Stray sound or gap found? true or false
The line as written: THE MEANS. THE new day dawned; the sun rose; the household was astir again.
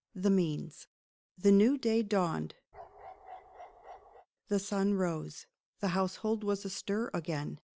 true